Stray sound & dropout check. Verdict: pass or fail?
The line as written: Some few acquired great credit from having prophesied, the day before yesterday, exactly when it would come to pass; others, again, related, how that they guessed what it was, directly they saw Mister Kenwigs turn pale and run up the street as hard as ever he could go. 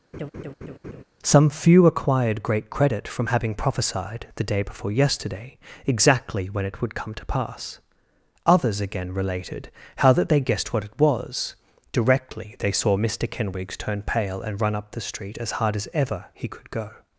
fail